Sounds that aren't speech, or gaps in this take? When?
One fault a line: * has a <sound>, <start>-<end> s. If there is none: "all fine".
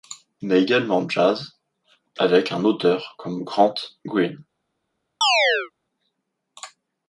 * has a chirp, 5.2-5.7 s